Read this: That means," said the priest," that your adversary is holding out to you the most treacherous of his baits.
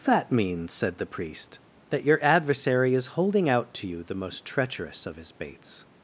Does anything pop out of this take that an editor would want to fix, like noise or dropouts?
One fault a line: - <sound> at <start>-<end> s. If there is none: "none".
none